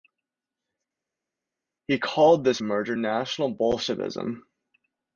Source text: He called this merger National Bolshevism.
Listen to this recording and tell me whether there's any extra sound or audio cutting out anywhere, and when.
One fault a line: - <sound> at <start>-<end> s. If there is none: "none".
none